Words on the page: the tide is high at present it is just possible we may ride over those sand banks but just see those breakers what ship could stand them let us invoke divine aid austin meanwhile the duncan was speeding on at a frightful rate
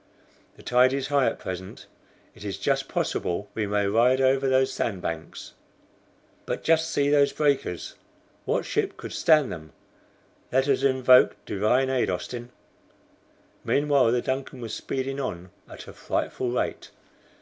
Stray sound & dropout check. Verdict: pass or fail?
pass